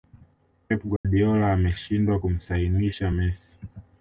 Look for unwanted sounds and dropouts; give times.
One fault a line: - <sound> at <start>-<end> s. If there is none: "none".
- dropout at 1.0-1.0 s